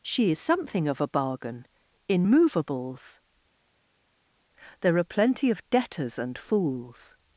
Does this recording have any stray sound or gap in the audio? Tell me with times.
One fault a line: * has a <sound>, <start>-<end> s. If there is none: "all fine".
all fine